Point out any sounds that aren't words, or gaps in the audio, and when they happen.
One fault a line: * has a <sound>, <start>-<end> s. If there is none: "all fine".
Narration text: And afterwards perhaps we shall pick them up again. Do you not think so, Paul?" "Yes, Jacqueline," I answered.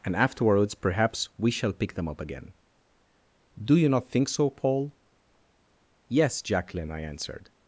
all fine